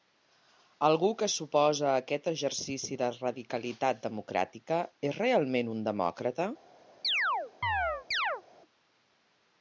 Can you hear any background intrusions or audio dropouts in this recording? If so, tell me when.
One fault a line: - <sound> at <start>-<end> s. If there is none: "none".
- chirp at 7.0-8.4 s